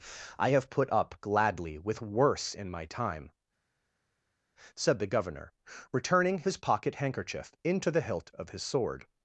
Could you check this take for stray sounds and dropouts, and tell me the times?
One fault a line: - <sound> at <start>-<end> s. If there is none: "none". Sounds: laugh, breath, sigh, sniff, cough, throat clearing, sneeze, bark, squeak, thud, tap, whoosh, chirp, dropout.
none